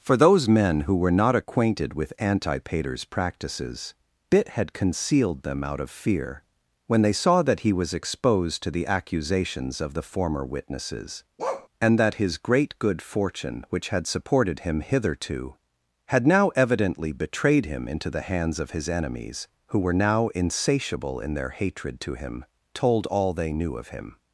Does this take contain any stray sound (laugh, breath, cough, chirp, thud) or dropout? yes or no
yes